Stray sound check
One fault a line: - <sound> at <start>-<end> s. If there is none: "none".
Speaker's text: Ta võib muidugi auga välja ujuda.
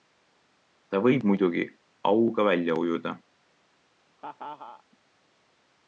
- laugh at 4.2-4.8 s